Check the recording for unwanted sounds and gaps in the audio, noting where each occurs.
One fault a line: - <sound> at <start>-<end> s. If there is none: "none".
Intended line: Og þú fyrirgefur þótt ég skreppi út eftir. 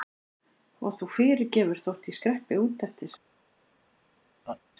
- laugh at 4.4-4.6 s